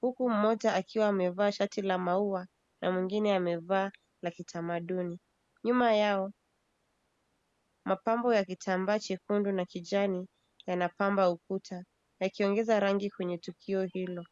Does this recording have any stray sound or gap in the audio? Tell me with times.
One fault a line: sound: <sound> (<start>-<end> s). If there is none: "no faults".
no faults